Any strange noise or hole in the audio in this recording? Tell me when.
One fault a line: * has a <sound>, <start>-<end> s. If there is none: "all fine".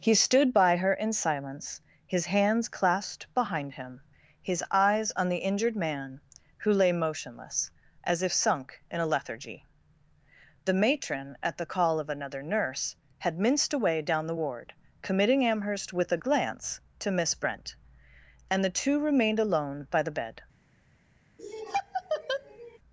* has a laugh, 21.4-22.8 s